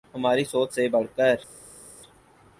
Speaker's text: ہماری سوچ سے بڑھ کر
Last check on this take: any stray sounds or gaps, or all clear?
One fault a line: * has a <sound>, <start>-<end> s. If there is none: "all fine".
all fine